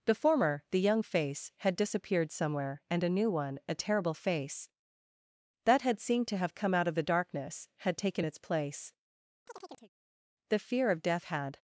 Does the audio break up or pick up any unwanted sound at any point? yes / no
yes